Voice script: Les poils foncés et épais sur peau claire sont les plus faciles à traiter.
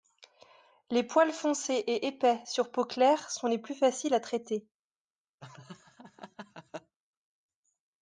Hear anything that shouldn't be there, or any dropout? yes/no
yes